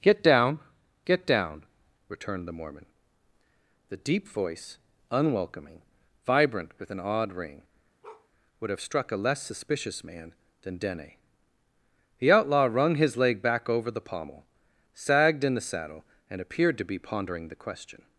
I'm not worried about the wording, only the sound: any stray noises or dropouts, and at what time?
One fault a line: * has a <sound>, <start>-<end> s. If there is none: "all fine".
* has a bark, 8.0-8.3 s